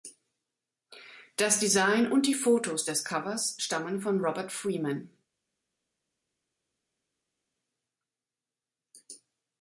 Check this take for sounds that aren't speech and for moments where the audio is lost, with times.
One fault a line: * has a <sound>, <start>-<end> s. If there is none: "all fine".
all fine